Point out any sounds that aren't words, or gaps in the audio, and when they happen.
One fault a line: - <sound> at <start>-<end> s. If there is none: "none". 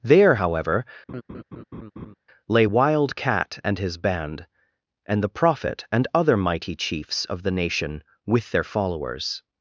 - laugh at 1.1-2.1 s